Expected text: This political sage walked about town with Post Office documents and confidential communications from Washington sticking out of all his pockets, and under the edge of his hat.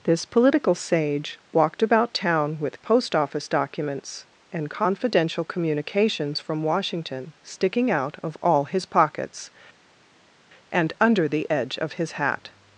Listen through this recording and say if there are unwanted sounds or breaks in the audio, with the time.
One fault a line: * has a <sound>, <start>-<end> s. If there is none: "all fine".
all fine